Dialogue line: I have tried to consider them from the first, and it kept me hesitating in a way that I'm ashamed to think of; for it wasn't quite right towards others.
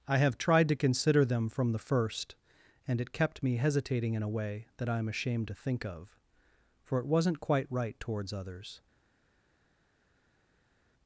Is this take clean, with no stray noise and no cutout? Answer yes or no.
yes